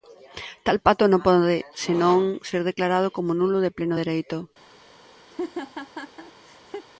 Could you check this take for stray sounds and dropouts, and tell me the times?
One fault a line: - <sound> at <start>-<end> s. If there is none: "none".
- laugh at 5.3-6.9 s